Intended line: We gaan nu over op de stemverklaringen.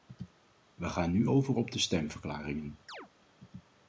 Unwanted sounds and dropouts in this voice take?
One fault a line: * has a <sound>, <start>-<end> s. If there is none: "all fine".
* has a chirp, 2.9-3.1 s